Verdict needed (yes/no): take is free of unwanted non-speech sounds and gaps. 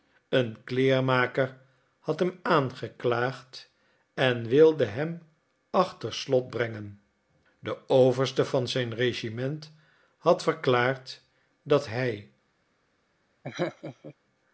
no